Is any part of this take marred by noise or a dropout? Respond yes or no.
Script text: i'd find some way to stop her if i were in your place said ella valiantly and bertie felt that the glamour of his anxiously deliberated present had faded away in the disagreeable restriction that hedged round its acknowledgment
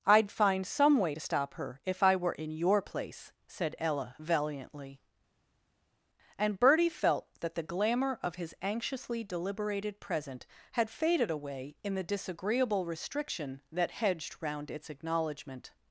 no